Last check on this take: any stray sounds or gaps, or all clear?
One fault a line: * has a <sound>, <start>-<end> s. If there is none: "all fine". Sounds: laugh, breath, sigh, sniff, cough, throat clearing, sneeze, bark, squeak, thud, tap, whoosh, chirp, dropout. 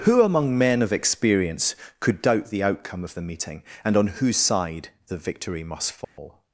* has a dropout, 6.0-6.2 s